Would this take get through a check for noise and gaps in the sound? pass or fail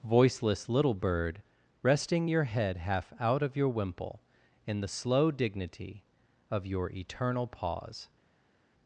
pass